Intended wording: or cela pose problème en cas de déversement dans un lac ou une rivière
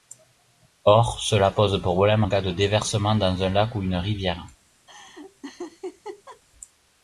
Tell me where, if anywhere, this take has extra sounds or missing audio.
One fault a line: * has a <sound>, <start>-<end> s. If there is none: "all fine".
* has a laugh, 4.9-6.4 s